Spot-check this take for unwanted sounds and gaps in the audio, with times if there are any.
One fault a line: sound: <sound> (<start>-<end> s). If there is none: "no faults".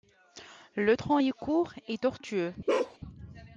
sound: bark (2.7-3.0 s)